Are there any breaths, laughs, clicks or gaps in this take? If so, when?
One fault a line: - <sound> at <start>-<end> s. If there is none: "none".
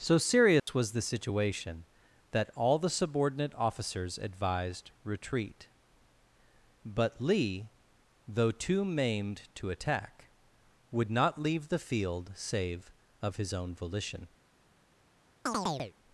- dropout at 0.6-0.7 s
- chirp at 15.5-15.9 s